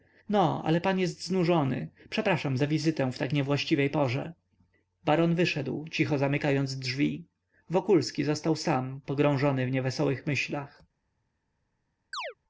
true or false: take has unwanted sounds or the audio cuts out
true